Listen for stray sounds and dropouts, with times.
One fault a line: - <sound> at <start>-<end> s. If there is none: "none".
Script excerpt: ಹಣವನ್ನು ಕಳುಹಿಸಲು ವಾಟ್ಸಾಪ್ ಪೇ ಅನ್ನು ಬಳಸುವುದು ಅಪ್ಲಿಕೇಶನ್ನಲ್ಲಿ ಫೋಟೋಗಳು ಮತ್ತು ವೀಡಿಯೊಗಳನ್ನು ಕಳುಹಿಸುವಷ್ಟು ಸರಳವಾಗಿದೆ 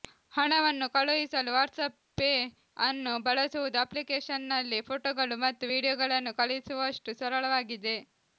none